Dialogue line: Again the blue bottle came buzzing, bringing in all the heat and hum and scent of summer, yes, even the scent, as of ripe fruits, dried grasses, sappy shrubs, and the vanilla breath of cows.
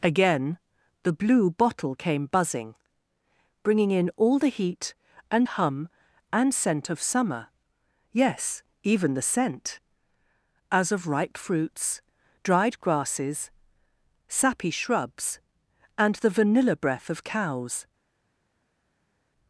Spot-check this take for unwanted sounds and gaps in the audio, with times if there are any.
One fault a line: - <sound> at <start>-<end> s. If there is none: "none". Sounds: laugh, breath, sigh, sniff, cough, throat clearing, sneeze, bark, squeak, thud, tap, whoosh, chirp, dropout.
none